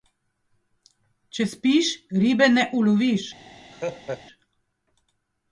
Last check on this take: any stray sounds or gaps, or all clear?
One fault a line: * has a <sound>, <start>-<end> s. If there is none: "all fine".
* has a laugh, 3.7-4.2 s